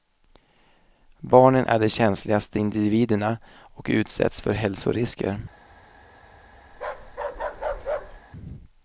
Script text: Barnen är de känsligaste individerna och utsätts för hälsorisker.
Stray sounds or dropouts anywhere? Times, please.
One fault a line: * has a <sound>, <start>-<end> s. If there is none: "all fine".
* has a bark, 6.7-8.2 s